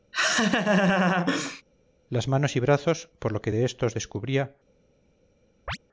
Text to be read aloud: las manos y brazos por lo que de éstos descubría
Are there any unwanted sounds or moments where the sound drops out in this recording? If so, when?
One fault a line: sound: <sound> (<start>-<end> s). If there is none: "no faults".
sound: laugh (0.1-1.6 s)
sound: chirp (5.7-5.8 s)